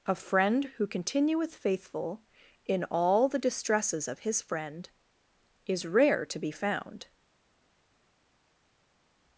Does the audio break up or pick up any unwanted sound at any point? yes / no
no